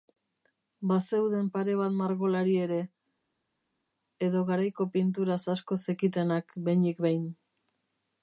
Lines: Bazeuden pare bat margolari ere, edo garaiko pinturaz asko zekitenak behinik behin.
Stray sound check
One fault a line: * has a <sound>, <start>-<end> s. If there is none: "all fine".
all fine